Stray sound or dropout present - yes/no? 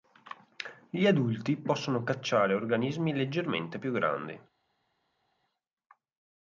no